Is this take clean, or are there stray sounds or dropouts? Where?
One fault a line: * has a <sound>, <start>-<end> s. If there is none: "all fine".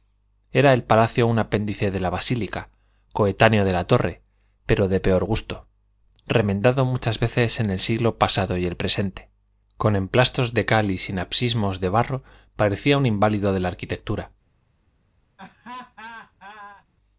* has a laugh, 15.4-16.8 s